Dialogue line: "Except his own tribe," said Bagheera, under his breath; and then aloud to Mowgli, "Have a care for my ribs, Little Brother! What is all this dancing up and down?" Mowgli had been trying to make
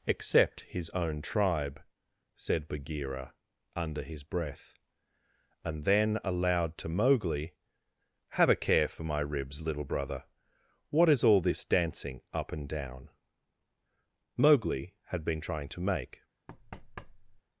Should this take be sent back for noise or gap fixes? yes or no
yes